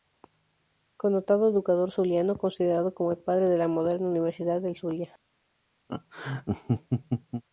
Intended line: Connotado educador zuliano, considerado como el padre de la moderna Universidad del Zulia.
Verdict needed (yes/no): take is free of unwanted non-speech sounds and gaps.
no